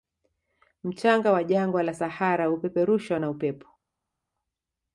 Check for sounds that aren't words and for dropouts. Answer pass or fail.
pass